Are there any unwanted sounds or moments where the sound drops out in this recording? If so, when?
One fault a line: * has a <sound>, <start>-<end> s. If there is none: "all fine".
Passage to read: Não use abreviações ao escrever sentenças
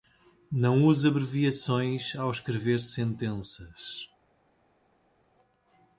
all fine